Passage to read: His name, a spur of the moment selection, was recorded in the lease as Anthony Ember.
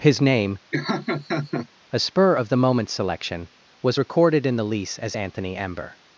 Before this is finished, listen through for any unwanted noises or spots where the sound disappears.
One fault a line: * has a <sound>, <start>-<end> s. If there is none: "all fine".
* has a laugh, 0.7-1.7 s